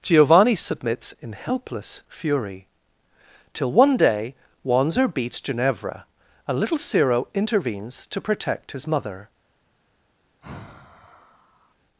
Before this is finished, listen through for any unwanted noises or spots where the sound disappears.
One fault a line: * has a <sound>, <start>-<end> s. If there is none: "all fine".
* has a sigh, 10.4-11.7 s